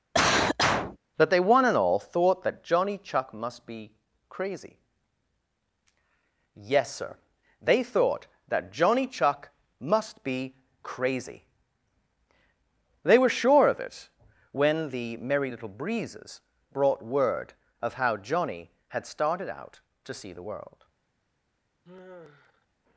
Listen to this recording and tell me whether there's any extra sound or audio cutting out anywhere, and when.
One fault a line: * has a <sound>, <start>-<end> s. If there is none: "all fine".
* has a cough, 0.1-1.0 s
* has a sigh, 21.8-22.7 s